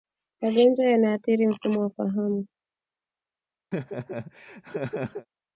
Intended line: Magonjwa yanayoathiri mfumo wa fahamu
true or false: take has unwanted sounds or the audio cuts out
true